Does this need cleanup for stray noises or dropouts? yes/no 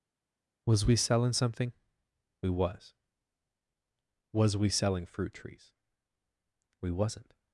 no